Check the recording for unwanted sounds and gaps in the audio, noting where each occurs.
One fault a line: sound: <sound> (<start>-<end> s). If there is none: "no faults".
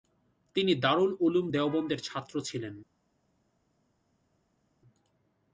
no faults